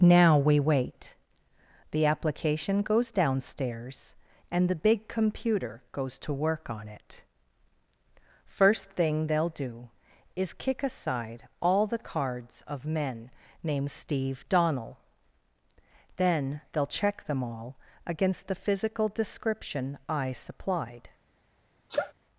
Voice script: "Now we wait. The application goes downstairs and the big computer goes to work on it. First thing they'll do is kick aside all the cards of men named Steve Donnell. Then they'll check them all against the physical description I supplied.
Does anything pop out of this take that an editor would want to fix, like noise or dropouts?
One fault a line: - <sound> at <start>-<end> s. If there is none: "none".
- sneeze at 21.9-22.1 s